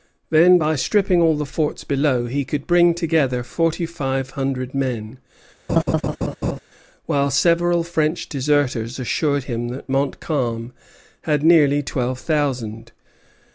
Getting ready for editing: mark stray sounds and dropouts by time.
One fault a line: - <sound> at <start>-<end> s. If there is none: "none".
- laugh at 5.7-6.6 s